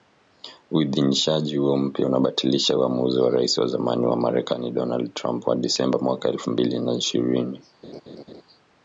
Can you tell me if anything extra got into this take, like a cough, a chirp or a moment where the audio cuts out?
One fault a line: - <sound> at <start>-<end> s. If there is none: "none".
- laugh at 7.8-8.4 s